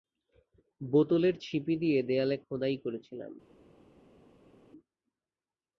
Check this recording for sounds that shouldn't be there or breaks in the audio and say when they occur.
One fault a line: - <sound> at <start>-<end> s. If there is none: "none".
none